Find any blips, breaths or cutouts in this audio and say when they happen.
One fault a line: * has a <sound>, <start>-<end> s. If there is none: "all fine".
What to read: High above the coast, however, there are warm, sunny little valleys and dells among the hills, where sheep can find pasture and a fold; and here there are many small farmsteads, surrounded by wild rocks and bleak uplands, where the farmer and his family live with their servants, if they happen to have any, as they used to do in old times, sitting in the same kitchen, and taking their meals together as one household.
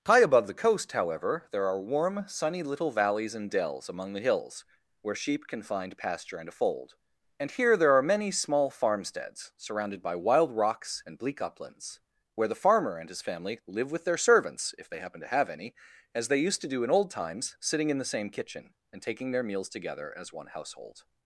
all fine